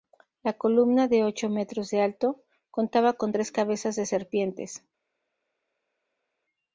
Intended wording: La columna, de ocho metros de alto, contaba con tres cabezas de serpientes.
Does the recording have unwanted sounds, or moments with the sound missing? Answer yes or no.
no